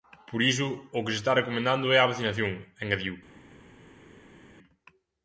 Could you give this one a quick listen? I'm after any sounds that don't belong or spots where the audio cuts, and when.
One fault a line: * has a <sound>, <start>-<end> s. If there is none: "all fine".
all fine